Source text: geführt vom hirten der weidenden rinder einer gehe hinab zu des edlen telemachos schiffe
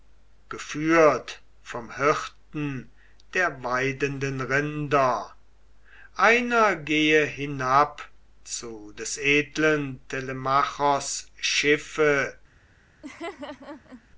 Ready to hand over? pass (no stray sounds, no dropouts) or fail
fail